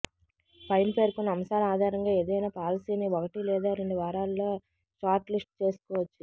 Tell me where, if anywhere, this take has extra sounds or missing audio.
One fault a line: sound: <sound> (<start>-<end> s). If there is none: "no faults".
no faults